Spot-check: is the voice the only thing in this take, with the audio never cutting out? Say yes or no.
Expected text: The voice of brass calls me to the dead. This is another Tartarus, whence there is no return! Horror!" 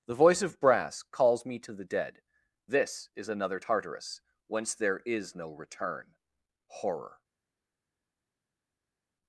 yes